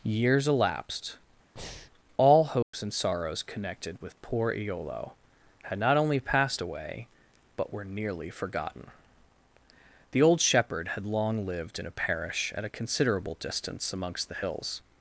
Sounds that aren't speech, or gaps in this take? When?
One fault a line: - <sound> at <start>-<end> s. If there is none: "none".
- breath at 1.6-1.9 s
- dropout at 2.6-2.7 s